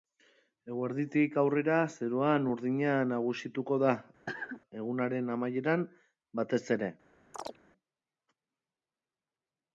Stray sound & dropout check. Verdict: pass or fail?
fail